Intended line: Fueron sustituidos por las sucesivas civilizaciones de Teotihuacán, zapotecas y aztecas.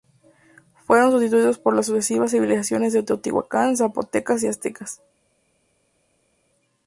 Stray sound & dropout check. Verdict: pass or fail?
pass